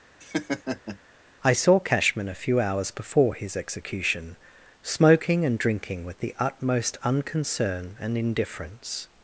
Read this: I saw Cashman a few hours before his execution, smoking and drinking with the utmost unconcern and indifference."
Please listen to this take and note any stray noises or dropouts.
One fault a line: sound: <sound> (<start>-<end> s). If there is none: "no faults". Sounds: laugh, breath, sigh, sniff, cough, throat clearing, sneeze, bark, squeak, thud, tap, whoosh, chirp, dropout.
sound: laugh (0.2-1.0 s)